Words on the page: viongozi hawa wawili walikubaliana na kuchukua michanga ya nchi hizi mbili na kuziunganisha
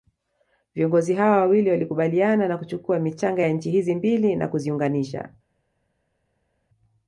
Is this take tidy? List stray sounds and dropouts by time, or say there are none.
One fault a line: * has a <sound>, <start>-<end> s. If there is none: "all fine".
all fine